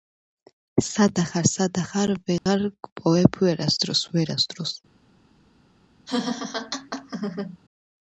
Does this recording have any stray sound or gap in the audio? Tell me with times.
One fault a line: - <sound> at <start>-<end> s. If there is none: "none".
- dropout at 2.4-2.5 s
- laugh at 6.1-7.6 s